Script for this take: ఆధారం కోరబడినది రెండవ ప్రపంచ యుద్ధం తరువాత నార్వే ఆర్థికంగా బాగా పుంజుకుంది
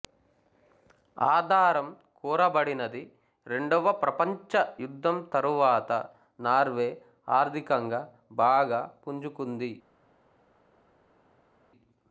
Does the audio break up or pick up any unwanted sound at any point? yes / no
no